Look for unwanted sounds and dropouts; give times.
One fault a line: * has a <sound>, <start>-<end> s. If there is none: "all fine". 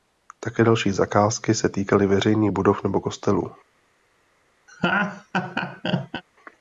* has a laugh, 4.7-6.2 s